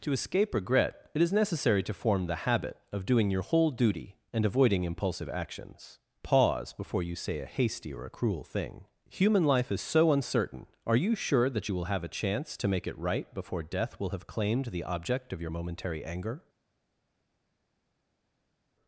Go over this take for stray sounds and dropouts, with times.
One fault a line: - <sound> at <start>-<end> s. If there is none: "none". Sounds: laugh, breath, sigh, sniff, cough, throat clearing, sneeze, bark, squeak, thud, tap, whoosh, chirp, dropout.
none